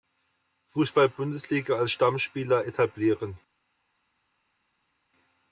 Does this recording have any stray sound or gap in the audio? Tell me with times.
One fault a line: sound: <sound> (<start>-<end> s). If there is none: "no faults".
no faults